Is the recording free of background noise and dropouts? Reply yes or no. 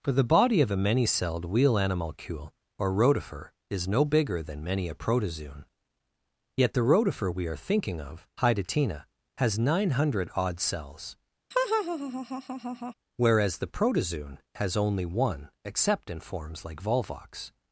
no